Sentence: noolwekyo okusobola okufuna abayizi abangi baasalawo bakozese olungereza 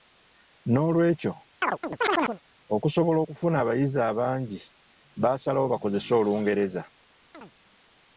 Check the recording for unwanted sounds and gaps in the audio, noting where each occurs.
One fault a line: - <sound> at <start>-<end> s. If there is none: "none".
- chirp at 1.6-2.4 s
- chirp at 7.3-7.5 s